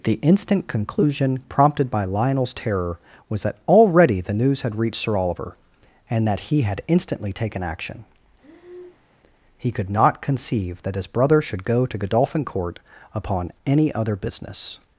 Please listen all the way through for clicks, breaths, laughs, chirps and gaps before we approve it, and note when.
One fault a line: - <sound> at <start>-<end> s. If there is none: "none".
- breath at 8.4-9.1 s